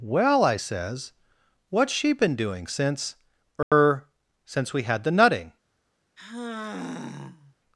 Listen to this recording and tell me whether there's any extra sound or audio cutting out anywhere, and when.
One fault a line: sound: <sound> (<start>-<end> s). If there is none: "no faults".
sound: dropout (3.6-3.7 s)
sound: sigh (6.2-7.6 s)